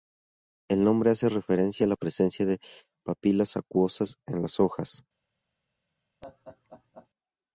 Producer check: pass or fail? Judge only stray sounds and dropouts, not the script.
fail